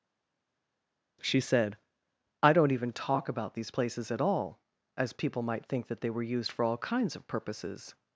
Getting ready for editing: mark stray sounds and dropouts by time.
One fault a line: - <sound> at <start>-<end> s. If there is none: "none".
none